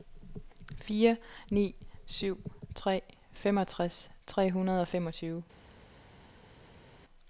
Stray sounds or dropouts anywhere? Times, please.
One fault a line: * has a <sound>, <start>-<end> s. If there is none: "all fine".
all fine